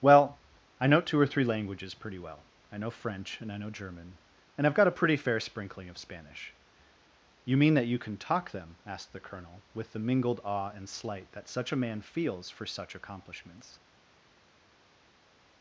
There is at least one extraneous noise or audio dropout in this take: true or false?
false